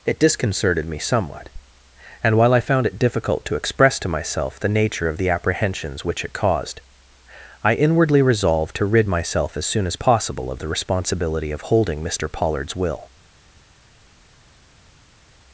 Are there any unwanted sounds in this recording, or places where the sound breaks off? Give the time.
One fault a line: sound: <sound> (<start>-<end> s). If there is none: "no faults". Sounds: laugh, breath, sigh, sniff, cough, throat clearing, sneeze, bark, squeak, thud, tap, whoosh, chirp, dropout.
no faults